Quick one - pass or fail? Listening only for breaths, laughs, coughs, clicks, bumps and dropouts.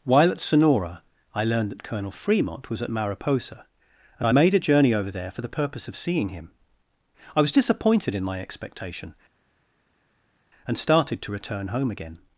pass